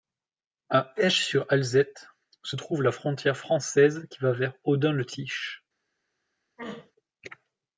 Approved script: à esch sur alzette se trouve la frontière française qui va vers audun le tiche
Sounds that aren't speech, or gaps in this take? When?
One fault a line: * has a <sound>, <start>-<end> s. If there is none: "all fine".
* has a throat clearing, 6.6-6.9 s